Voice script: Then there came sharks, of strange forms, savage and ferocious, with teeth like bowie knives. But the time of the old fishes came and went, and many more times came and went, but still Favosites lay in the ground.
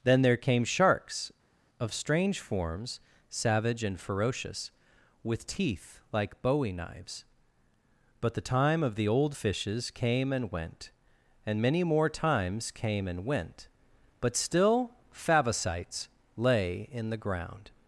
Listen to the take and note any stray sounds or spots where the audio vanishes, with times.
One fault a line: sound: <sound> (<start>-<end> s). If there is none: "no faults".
no faults